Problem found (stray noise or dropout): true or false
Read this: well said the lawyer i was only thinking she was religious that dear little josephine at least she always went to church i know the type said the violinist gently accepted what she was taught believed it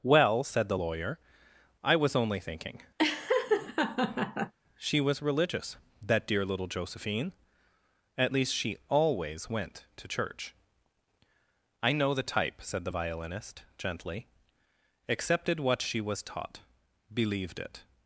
true